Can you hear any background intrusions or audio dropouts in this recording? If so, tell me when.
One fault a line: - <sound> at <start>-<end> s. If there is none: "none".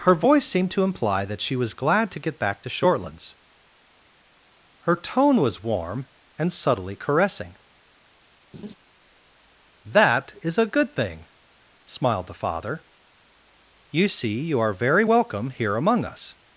- laugh at 8.5-8.7 s